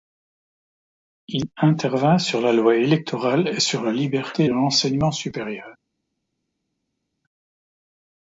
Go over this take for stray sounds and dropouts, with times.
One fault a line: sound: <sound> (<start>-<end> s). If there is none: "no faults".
no faults